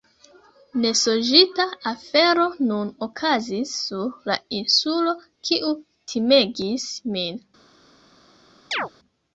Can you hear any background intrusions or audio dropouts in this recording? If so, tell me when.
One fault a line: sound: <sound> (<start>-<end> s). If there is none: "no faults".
sound: chirp (8.7-8.9 s)